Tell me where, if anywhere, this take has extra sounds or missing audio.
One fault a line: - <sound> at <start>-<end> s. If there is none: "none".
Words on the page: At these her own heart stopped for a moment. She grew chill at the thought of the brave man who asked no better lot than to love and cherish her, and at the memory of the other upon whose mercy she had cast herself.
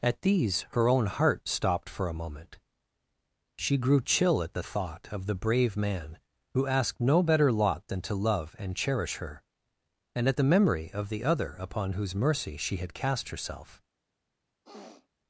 - sniff at 14.6-15.1 s